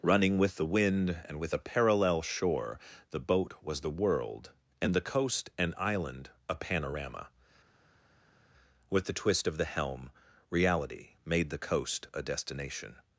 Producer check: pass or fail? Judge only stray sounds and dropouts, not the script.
pass